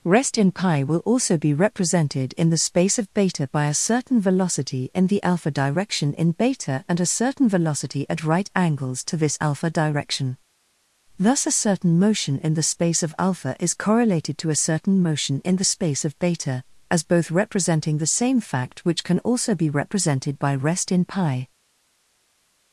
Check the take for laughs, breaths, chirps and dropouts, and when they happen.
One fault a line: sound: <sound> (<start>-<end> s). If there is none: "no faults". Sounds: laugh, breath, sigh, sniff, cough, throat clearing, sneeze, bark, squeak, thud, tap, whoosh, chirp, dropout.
no faults